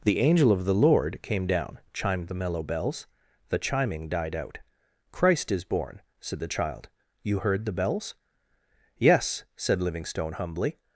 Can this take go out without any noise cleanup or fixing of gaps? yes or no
yes